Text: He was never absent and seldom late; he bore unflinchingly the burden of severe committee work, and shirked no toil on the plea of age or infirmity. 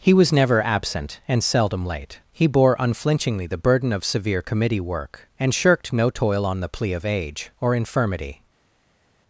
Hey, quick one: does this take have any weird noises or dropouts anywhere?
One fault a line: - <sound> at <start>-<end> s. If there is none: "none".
none